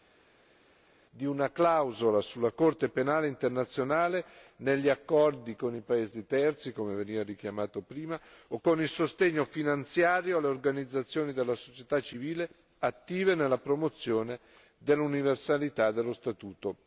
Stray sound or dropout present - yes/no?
no